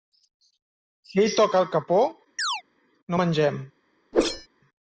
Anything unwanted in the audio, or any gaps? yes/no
yes